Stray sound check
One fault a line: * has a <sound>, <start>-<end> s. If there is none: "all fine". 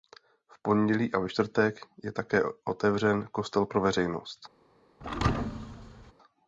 * has a thud, 5.0-6.1 s